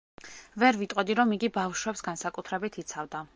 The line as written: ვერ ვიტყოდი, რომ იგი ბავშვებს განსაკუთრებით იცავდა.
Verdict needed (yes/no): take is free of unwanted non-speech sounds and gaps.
yes